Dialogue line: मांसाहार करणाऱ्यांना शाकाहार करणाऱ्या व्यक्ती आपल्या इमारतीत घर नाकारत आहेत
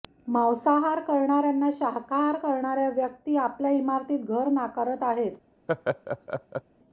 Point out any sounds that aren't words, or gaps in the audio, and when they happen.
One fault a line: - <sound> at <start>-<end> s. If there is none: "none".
- laugh at 5.7-6.6 s